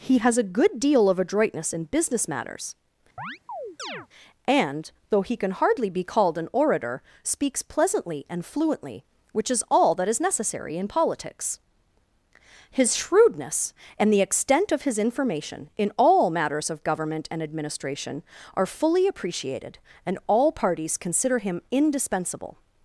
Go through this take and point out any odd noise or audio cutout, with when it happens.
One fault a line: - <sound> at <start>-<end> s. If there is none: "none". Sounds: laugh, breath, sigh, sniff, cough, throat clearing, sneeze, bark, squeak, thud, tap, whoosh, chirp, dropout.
- chirp at 3.2-4.1 s